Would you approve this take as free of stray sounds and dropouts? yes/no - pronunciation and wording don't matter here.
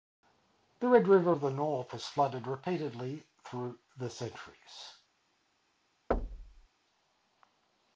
no